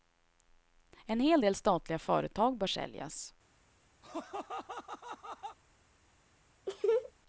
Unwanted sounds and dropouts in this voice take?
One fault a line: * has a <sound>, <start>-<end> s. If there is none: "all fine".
* has a laugh, 4.0-5.6 s
* has a laugh, 6.7-7.1 s